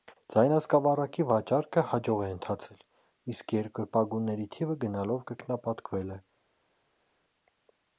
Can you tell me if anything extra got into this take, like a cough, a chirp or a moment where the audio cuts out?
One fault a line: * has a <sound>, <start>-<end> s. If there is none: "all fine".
all fine